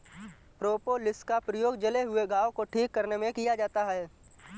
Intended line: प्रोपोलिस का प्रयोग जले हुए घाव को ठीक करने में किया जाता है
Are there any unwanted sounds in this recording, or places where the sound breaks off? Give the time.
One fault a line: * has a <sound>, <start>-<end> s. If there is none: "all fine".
all fine